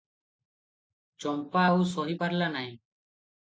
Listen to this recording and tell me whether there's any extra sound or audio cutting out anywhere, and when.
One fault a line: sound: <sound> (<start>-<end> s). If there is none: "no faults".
no faults